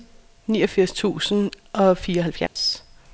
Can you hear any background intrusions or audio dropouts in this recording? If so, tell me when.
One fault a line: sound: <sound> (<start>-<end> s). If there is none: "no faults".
sound: dropout (2.5-2.6 s)